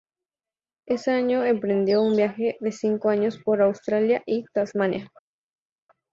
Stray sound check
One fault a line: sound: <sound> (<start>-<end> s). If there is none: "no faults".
no faults